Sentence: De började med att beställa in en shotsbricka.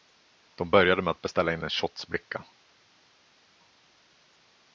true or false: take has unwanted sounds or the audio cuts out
false